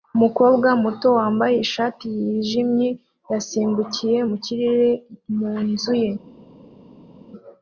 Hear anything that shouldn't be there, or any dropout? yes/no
no